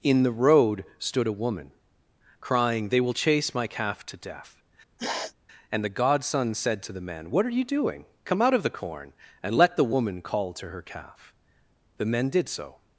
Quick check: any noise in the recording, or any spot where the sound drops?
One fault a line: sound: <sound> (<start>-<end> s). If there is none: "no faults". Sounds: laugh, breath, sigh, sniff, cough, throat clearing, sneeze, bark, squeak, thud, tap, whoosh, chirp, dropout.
sound: sniff (5.0-5.3 s)